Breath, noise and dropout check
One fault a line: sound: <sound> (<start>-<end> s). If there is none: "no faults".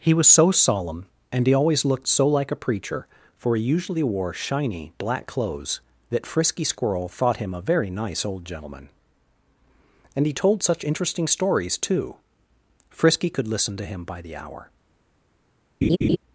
sound: laugh (15.8-16.2 s)